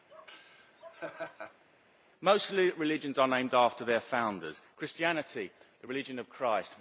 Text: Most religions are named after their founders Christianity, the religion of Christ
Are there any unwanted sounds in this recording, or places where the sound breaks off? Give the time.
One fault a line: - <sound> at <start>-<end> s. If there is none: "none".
- laugh at 0.1-1.6 s